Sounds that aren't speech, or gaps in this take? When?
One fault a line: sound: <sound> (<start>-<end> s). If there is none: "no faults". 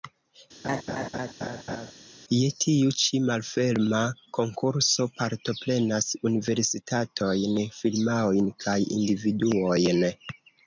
sound: laugh (0.6-1.9 s)